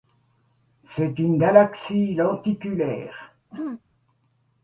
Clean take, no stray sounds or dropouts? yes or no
no